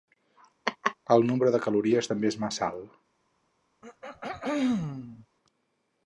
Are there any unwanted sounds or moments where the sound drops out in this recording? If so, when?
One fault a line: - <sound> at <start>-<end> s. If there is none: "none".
- laugh at 0.7-1.0 s
- throat clearing at 3.8-5.3 s